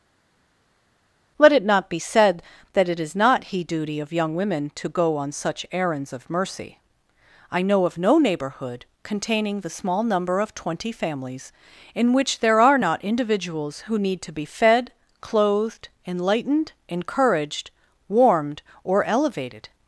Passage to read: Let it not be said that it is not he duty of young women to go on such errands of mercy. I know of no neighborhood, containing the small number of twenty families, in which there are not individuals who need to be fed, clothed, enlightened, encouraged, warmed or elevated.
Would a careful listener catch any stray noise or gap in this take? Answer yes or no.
no